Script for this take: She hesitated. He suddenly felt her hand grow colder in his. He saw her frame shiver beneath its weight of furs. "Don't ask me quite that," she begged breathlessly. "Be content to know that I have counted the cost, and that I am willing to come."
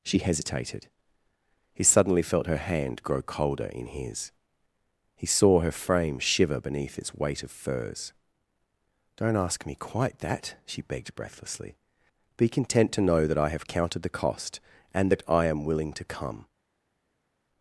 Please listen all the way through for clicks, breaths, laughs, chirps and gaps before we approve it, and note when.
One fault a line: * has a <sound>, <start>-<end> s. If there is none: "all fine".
all fine